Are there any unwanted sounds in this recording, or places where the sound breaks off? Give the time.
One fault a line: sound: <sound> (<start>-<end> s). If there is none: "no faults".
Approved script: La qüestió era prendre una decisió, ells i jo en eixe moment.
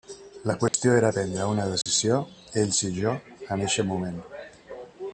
sound: dropout (0.7-0.7 s)
sound: dropout (1.8-1.9 s)